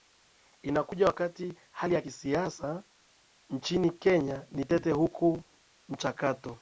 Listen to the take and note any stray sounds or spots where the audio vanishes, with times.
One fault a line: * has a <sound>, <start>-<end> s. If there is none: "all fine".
all fine